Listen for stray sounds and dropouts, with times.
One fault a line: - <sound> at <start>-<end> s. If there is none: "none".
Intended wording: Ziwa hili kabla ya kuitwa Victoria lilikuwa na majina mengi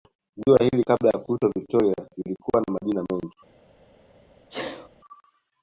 - sneeze at 4.5-4.9 s